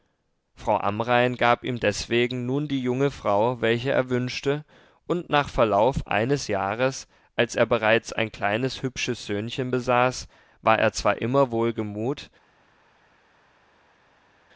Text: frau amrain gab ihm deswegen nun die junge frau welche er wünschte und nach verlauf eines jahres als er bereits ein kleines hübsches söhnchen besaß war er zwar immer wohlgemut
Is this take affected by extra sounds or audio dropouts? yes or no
no